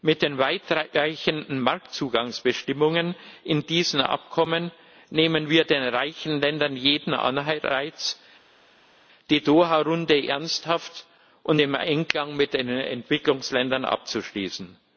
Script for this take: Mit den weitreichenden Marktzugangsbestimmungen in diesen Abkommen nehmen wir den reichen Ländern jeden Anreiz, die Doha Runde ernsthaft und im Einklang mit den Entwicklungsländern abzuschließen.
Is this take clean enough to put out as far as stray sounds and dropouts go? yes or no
yes